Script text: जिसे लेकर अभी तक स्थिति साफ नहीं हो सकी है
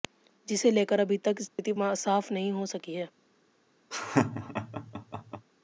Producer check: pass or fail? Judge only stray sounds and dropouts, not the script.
fail